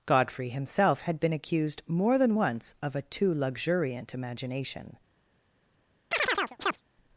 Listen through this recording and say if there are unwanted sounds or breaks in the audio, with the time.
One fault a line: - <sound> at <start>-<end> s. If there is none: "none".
- chirp at 6.1-6.8 s